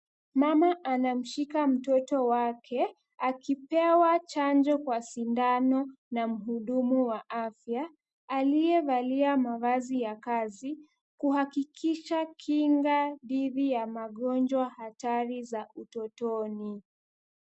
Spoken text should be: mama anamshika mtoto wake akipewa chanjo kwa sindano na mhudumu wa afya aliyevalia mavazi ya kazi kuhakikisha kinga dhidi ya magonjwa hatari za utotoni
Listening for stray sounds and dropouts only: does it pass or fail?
pass